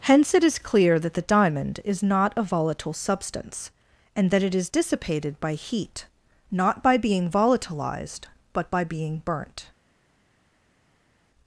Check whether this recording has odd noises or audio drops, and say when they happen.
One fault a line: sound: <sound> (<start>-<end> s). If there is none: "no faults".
no faults